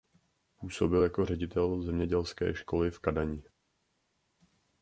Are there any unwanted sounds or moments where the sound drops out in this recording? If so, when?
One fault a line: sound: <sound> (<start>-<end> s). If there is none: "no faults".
no faults